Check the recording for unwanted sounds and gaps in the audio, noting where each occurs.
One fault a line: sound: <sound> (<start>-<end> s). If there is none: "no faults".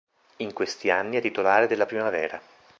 no faults